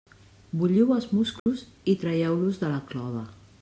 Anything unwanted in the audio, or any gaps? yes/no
yes